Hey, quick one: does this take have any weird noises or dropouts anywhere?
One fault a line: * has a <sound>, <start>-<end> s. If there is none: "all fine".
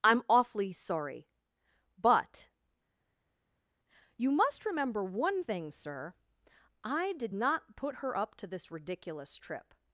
all fine